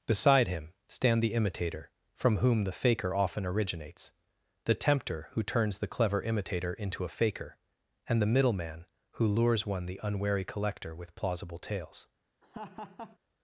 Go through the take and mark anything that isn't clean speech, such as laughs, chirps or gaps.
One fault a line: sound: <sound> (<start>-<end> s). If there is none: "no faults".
sound: laugh (12.4-13.2 s)